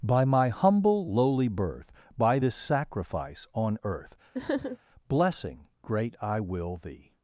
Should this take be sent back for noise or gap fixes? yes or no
yes